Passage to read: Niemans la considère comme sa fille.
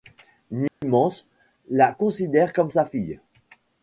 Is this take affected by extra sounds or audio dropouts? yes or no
yes